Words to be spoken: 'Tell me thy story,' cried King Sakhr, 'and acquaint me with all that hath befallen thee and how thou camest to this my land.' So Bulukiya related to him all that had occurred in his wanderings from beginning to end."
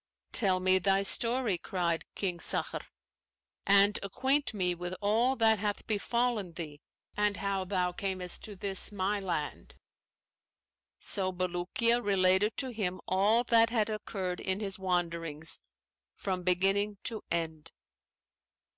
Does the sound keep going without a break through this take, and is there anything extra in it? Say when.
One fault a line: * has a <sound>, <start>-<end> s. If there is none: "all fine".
all fine